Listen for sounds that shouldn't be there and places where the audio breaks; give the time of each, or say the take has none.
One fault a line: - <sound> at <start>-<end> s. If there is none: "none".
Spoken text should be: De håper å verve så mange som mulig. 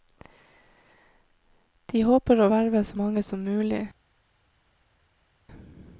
none